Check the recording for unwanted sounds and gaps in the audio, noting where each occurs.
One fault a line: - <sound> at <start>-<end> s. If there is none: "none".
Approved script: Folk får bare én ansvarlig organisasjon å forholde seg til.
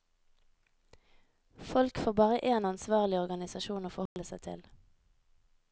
- dropout at 4.1-4.2 s